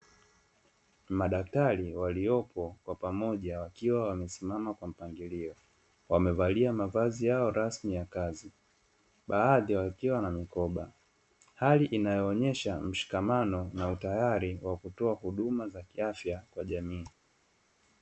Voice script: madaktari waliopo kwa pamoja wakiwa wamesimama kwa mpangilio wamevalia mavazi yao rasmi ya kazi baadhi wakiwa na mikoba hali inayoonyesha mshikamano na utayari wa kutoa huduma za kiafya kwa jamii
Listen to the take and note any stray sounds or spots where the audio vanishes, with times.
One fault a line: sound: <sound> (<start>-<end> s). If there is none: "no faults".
no faults